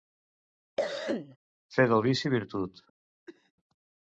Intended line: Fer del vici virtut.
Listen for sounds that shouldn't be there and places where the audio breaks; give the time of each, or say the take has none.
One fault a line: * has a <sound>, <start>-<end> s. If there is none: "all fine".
* has a cough, 0.8-1.4 s
* has a cough, 3.3-3.5 s